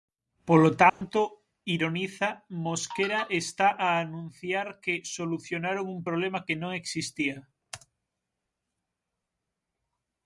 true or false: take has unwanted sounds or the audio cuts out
true